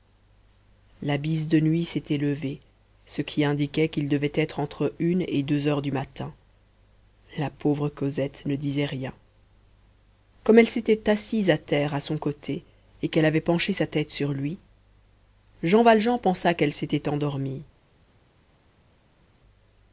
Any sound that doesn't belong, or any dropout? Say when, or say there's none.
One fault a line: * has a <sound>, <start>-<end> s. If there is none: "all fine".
all fine